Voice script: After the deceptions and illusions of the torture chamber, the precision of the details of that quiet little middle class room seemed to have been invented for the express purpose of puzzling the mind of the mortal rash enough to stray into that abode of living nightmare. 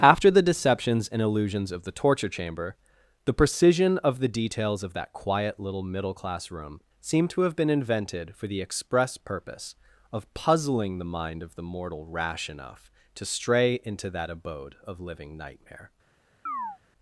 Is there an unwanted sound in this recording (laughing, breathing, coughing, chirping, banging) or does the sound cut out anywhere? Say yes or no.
yes